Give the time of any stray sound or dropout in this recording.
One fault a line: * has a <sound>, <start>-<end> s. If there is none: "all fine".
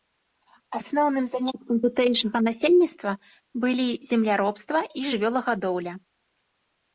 all fine